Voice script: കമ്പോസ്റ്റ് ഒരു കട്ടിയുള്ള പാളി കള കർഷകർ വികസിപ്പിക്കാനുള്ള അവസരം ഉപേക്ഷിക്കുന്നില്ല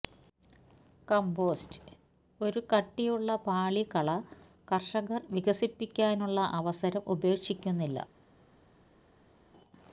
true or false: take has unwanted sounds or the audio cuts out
false